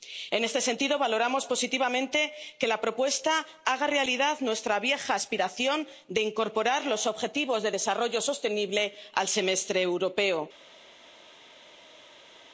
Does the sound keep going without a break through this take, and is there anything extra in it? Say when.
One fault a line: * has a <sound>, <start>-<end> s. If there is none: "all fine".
all fine